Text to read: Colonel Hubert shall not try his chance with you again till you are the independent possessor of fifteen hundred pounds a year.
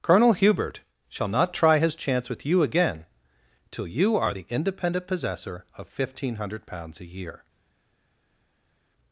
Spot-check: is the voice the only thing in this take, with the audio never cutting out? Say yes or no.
yes